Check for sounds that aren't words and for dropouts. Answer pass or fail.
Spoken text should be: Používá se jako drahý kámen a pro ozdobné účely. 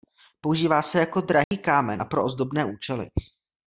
fail